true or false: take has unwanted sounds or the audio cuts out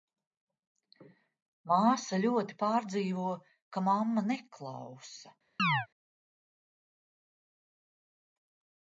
true